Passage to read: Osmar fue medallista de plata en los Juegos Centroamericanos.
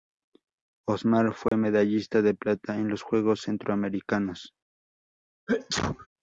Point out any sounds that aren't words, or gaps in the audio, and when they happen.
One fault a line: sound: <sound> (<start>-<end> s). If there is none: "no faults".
sound: dropout (1.5-1.5 s)
sound: sneeze (5.5-6.1 s)